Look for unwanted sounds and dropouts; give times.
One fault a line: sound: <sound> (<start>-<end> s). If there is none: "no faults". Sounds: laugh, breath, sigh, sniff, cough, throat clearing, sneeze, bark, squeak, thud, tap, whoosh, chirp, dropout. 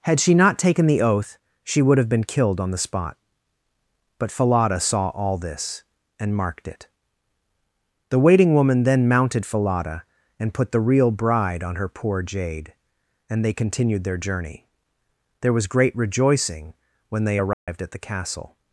sound: dropout (17.5-17.7 s)